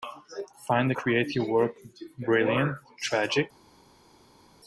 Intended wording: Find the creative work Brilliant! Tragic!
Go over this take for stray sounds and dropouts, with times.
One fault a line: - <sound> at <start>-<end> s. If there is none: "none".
none